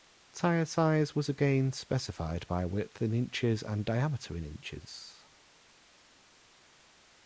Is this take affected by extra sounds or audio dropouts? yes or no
no